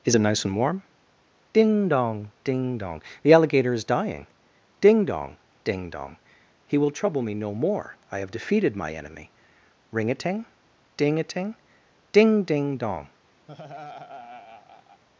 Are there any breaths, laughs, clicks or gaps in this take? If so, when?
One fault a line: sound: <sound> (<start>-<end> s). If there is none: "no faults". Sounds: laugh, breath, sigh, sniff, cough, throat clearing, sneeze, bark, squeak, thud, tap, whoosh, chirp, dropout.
sound: laugh (13.5-15.0 s)